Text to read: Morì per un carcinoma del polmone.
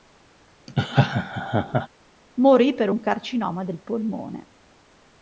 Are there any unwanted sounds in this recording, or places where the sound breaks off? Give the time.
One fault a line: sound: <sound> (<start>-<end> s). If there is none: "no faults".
sound: laugh (0.7-1.9 s)